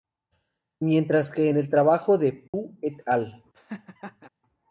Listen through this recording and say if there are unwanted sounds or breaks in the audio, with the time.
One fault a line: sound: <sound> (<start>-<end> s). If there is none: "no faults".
sound: dropout (2.5-2.5 s)
sound: laugh (3.5-4.3 s)